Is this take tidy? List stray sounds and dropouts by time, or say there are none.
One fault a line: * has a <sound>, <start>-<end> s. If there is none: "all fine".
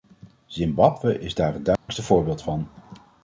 * has a dropout, 1.8-1.9 s